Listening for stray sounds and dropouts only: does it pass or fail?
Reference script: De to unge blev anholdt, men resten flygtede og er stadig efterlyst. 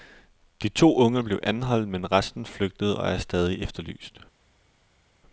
pass